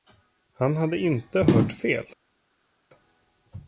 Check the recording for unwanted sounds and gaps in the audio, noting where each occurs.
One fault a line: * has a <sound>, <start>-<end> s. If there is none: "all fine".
all fine